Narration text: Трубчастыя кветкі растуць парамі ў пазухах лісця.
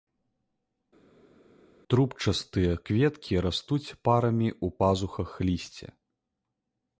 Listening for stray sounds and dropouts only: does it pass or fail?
pass